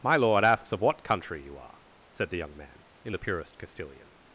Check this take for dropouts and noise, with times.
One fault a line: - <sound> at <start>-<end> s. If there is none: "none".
none